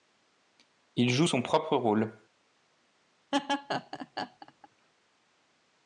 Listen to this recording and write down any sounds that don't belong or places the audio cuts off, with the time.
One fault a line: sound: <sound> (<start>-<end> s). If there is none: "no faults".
sound: laugh (3.3-4.7 s)